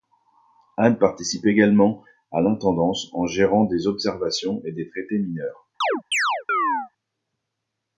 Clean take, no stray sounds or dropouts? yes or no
no